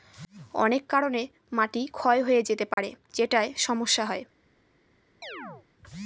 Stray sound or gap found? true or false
true